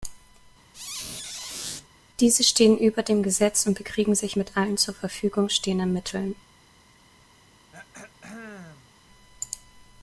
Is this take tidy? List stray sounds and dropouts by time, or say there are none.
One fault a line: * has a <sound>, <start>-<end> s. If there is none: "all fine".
* has a squeak, 0.7-1.9 s
* has a throat clearing, 7.7-8.9 s